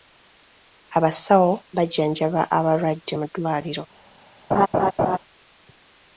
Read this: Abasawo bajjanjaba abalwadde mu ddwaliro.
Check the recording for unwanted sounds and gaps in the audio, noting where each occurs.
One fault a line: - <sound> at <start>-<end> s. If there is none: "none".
- laugh at 4.5-5.2 s